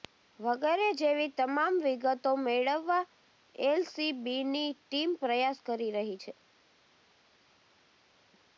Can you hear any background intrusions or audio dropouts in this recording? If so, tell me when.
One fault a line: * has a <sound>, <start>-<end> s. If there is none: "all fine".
all fine